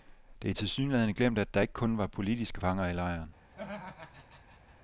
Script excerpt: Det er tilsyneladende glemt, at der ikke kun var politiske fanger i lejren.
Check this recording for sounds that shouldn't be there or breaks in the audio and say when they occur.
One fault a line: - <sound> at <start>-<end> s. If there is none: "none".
- laugh at 3.5-4.8 s